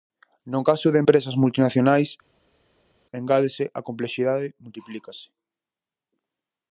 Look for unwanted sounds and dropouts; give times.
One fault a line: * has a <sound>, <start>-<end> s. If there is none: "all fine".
all fine